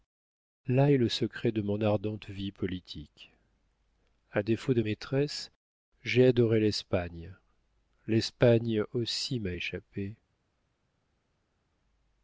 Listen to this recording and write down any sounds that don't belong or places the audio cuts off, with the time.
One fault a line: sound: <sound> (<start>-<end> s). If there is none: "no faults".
no faults